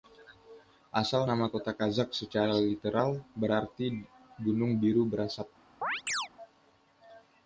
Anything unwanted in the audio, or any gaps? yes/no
yes